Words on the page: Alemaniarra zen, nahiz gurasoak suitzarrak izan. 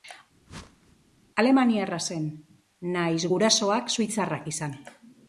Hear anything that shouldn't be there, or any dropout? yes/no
yes